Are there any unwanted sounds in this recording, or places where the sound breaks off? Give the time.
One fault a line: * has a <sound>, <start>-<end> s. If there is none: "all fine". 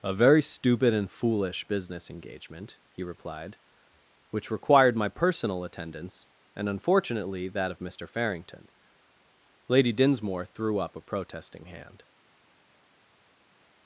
all fine